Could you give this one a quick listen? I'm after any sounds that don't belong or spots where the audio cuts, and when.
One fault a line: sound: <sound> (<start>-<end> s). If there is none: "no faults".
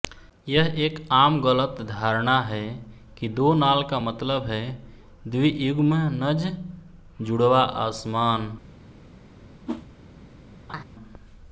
sound: whoosh (9.7-9.9 s)
sound: laugh (10.7-10.8 s)